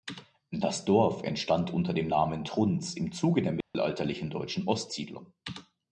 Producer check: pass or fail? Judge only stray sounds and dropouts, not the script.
fail